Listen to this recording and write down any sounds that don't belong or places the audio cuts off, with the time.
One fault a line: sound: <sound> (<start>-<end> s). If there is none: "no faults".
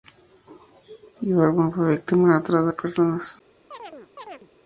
sound: chirp (3.7-4.5 s)